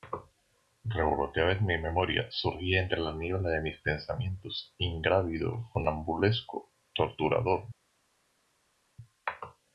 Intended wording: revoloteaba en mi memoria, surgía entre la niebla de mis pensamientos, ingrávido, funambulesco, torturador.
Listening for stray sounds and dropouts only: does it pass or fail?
pass